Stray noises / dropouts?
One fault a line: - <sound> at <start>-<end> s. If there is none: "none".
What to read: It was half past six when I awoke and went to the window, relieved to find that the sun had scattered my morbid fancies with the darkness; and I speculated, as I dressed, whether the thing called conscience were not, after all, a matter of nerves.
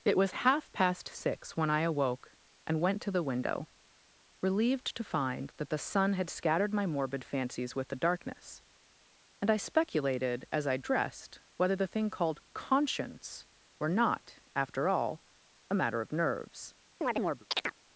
- chirp at 17.0-17.7 s